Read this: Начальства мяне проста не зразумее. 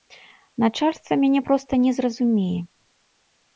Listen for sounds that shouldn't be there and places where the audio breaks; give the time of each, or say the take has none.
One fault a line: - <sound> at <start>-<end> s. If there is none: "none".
none